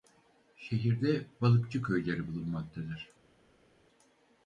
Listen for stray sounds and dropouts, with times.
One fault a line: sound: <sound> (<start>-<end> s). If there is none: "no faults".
no faults